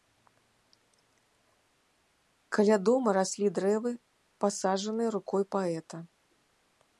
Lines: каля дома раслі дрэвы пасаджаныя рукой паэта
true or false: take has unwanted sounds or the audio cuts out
false